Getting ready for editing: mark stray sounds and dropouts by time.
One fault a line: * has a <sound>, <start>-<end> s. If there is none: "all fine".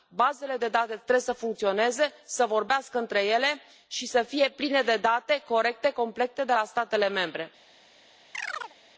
* has a chirp, 8.3-8.8 s